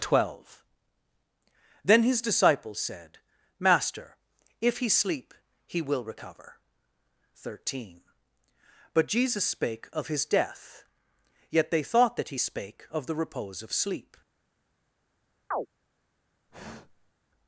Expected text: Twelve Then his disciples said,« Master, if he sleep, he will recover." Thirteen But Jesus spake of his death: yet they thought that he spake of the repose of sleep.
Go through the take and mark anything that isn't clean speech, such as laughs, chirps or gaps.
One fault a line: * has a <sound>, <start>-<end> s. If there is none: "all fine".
* has a chirp, 15.5-15.7 s
* has a sigh, 16.5-17.1 s